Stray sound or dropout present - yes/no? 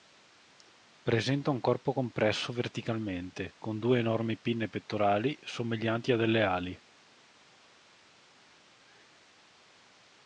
no